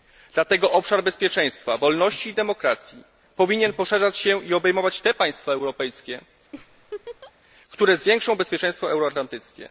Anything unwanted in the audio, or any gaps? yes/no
yes